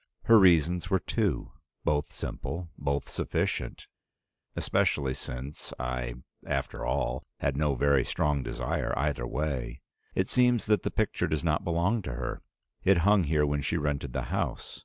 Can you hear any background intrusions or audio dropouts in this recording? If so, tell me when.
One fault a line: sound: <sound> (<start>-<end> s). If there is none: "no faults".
no faults